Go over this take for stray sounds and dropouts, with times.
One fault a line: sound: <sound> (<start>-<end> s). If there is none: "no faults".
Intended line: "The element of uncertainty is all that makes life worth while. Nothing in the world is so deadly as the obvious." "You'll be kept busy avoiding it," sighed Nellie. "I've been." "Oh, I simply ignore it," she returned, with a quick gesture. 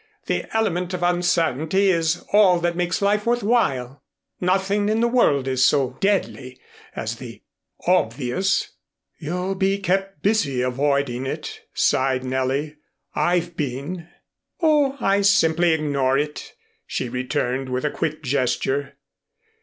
no faults